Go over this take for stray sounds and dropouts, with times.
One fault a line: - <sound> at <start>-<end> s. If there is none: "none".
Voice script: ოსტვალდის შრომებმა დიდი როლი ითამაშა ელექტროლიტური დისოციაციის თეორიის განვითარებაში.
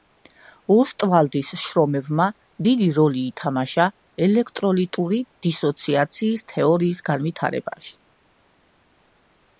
none